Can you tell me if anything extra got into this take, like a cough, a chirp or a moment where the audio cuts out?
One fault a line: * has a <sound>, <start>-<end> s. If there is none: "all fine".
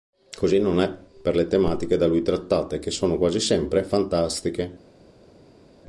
all fine